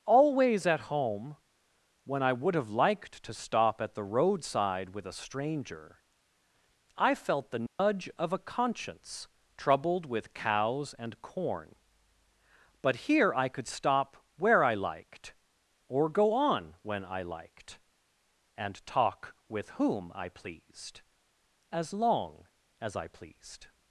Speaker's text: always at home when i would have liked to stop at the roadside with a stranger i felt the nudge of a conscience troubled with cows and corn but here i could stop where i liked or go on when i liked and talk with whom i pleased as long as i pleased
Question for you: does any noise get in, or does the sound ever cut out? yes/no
yes